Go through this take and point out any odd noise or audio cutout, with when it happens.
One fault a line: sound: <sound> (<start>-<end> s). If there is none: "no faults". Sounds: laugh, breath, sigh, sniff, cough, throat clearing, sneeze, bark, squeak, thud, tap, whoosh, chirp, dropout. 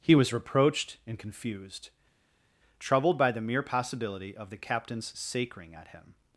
no faults